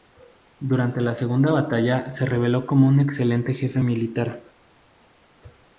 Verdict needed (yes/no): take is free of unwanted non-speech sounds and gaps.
yes